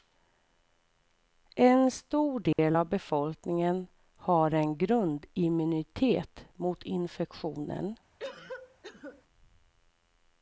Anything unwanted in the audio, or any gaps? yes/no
yes